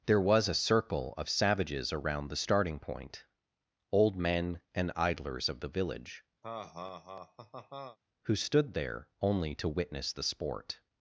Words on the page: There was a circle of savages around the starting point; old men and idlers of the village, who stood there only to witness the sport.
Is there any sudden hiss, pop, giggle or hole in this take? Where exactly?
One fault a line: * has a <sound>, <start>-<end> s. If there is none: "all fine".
* has a laugh, 6.4-8.0 s